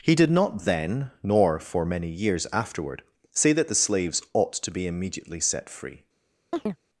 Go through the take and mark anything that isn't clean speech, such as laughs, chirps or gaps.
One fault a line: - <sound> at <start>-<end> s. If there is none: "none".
- chirp at 6.5-6.8 s